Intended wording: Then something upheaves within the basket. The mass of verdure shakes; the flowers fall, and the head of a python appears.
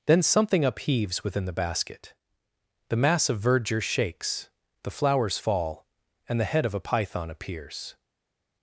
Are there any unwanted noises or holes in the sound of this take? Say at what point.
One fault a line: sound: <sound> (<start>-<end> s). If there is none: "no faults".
no faults